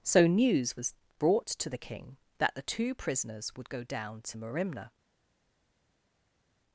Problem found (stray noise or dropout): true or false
false